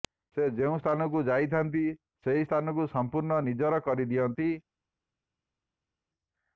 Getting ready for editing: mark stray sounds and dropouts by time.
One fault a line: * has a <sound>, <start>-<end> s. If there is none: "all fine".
all fine